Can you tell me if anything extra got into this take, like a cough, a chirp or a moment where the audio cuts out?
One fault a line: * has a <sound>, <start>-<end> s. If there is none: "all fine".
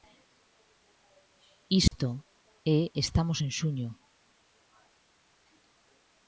* has a dropout, 1.9-1.9 s